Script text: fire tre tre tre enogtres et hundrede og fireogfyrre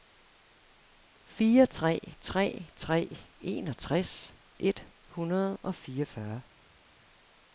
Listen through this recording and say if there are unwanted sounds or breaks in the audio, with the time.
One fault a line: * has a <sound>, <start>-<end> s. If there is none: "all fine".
all fine